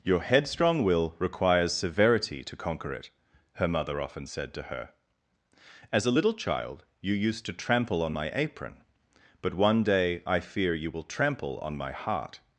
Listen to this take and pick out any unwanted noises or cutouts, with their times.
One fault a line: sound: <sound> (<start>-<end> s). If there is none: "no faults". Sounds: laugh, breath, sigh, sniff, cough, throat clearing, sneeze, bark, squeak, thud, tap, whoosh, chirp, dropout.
no faults